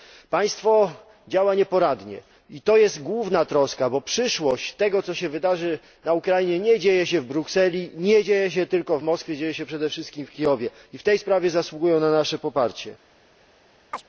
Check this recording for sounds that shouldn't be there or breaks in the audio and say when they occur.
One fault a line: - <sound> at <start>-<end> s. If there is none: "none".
- chirp at 13.9-14.0 s